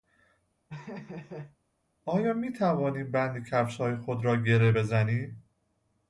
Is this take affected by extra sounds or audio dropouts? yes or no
yes